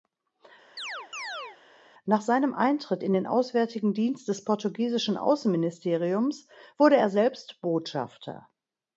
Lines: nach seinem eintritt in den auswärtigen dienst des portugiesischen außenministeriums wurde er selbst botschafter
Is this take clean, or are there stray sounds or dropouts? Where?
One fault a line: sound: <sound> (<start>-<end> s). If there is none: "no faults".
sound: chirp (0.8-1.6 s)